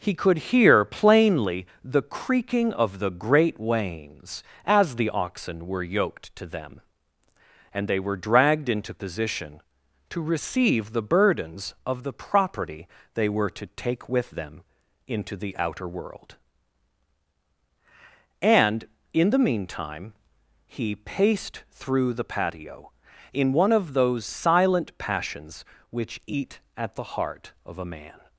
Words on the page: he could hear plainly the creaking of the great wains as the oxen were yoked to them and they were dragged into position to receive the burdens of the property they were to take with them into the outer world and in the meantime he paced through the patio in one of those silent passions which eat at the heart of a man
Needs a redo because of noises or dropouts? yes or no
no